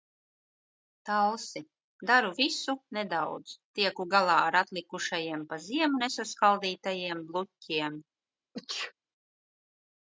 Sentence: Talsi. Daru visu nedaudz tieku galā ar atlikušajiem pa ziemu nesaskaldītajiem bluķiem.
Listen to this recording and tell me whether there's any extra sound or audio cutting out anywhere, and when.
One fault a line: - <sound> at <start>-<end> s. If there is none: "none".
- sneeze at 8.5-8.9 s